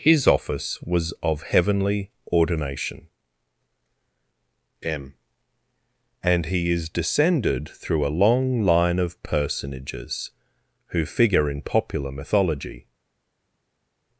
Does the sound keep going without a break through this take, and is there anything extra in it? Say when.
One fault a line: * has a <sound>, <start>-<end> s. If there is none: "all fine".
all fine